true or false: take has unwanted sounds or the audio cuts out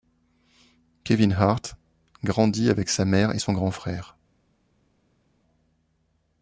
false